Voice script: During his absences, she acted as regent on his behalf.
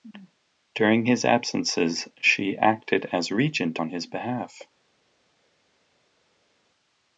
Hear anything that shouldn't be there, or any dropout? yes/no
no